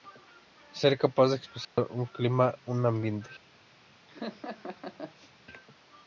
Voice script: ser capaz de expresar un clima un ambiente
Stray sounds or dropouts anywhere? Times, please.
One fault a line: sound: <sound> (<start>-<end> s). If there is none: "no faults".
sound: dropout (1.6-1.8 s)
sound: laugh (4.1-5.3 s)